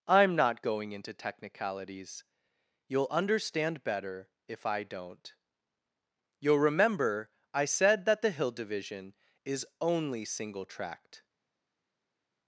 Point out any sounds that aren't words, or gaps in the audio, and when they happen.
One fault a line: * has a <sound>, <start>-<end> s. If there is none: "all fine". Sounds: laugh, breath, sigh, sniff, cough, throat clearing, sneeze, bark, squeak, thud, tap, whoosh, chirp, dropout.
all fine